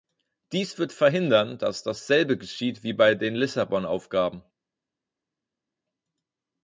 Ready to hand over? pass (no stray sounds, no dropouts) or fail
pass